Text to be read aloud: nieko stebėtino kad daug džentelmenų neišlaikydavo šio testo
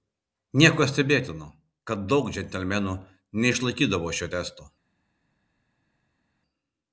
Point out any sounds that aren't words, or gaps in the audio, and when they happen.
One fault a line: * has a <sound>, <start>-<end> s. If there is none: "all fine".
all fine